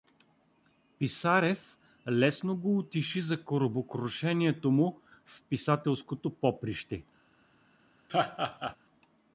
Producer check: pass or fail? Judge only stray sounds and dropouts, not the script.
fail